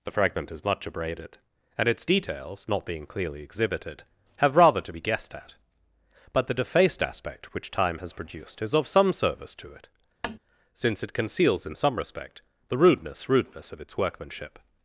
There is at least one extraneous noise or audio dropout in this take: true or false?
true